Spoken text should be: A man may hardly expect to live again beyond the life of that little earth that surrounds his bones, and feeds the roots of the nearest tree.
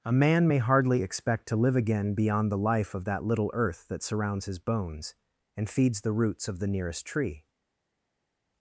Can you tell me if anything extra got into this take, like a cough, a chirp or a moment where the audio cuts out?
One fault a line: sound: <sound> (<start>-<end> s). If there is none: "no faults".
no faults